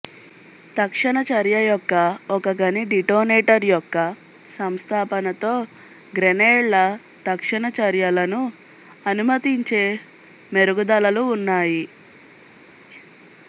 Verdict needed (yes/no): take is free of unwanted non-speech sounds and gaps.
yes